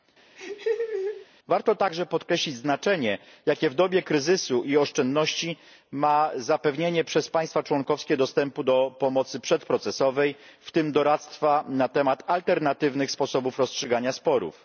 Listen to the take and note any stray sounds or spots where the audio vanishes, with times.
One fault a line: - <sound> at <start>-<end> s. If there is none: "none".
- laugh at 0.4-1.3 s